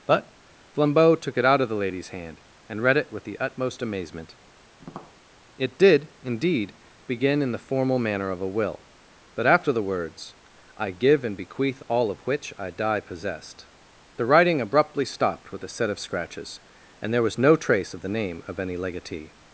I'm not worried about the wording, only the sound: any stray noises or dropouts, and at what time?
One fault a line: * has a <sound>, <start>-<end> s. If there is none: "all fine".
* has a tap, 4.8-5.2 s